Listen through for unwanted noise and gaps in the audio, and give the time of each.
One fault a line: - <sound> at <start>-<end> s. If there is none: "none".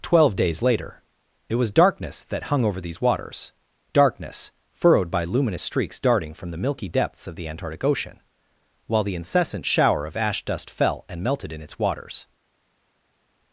none